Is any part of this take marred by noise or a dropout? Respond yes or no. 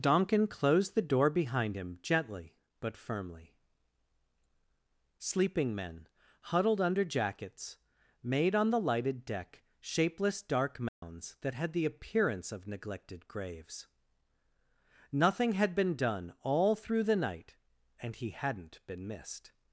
yes